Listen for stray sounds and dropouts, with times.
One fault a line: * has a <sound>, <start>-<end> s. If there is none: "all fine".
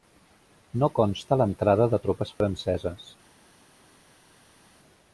all fine